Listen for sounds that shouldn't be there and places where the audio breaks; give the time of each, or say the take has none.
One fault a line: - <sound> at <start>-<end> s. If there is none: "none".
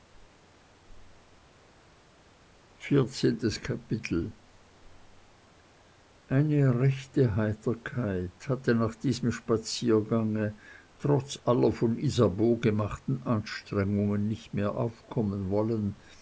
none